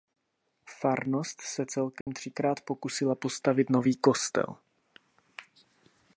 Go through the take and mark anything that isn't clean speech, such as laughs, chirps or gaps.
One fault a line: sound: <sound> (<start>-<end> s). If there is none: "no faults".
sound: dropout (2.0-2.1 s)